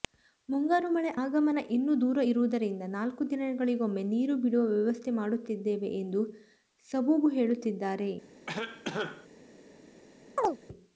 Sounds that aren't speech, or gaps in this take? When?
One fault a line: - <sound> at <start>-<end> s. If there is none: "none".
- cough at 8.5-9.3 s
- chirp at 10.4-10.6 s